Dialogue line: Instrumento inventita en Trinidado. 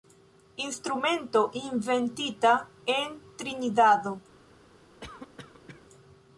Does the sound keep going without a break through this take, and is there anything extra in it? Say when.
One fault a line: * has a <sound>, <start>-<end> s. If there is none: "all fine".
* has a cough, 5.0-5.8 s